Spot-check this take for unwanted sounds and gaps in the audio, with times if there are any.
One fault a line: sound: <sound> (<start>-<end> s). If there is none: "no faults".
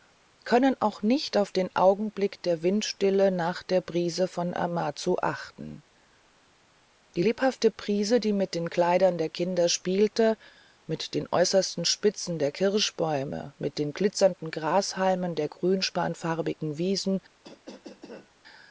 sound: cough (17.4-18.3 s)